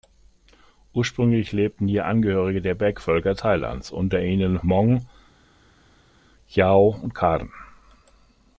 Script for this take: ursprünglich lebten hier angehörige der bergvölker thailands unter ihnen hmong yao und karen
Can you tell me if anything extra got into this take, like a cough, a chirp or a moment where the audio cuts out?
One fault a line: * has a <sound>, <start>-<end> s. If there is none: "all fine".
all fine